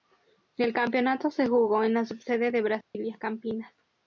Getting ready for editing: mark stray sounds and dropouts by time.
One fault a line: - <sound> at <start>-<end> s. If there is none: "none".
- dropout at 2.8-2.9 s